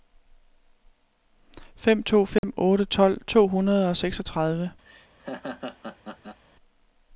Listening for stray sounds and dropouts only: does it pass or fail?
fail